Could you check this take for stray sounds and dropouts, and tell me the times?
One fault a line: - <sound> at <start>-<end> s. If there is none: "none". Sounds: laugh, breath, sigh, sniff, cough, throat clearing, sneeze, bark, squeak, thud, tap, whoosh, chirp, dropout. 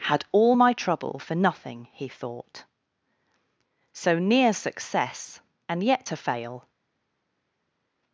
none